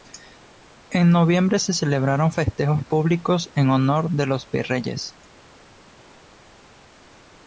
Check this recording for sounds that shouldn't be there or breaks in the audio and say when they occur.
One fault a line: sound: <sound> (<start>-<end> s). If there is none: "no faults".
no faults